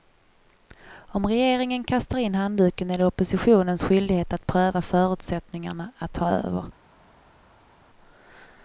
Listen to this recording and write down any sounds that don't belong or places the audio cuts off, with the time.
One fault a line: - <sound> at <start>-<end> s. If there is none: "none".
none